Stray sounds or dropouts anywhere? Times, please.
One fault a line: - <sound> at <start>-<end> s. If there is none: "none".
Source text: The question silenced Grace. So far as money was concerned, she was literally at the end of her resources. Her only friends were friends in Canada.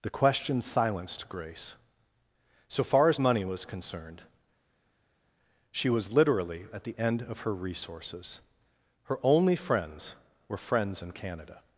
none